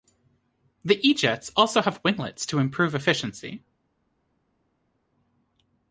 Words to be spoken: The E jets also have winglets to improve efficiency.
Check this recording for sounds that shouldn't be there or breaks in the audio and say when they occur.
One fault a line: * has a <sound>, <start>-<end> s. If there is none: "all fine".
all fine